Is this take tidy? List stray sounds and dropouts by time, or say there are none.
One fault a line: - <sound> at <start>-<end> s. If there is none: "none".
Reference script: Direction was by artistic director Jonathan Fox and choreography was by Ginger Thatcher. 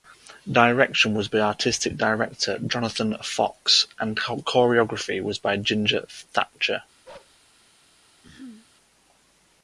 - bark at 7.0-7.4 s
- throat clearing at 8.2-8.7 s